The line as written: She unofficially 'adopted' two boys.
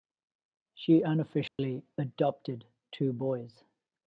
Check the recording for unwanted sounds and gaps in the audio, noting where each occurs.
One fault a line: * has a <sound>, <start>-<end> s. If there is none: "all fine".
* has a dropout, 1.5-1.6 s